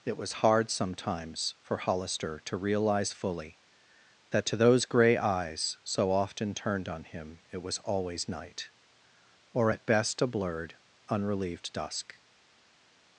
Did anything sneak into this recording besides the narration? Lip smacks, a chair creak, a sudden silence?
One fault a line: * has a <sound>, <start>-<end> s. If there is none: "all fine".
all fine